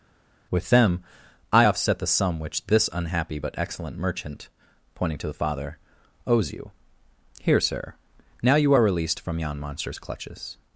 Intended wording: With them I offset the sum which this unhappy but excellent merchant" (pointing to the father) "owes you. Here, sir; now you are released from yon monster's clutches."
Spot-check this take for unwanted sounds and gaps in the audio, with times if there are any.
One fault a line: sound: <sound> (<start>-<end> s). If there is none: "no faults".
no faults